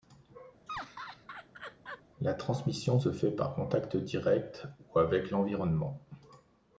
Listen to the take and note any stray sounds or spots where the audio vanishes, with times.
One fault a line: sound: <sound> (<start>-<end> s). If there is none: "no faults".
sound: laugh (0.7-2.0 s)